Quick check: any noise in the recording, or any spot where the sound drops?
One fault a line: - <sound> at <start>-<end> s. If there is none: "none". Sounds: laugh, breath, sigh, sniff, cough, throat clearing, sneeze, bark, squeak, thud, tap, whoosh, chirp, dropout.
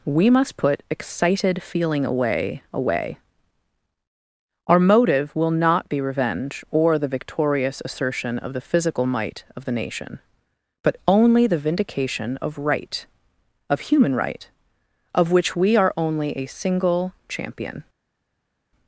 none